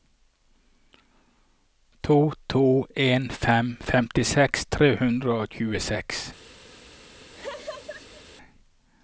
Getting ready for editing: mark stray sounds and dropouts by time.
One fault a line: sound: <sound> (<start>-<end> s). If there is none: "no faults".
sound: laugh (7.3-8.2 s)